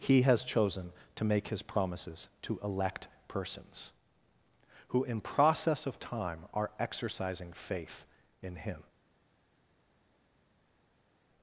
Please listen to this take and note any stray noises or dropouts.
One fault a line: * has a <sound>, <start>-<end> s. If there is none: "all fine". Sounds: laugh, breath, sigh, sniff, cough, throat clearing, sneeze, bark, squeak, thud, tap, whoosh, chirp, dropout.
all fine